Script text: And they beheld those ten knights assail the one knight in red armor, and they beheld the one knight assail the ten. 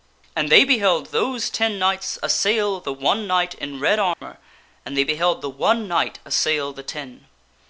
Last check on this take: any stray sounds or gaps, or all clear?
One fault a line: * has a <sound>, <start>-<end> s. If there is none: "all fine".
* has a dropout, 4.1-4.2 s